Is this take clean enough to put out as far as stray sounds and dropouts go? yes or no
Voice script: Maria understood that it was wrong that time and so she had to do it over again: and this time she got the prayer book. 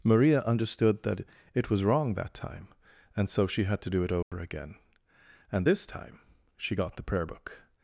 no